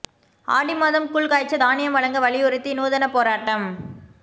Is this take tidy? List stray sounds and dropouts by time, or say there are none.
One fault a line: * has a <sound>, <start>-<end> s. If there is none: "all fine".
all fine